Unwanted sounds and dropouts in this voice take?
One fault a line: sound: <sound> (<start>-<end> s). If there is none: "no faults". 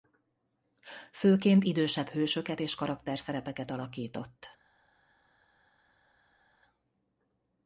no faults